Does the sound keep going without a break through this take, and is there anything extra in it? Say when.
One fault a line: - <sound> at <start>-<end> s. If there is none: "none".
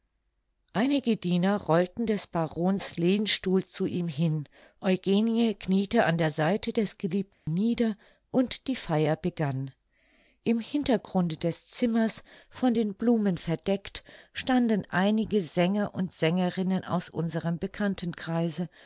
- dropout at 7.3-7.5 s